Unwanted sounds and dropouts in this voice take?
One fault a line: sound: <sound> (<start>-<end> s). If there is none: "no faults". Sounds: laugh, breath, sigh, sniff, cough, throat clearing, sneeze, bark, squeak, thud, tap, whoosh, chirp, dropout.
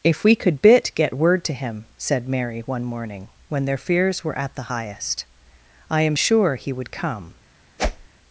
sound: whoosh (7.8-8.1 s)